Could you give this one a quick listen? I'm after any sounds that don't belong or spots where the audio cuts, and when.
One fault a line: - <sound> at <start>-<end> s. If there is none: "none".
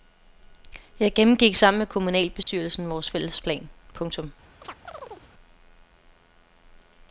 - dropout at 2.4-2.5 s
- chirp at 4.6-5.3 s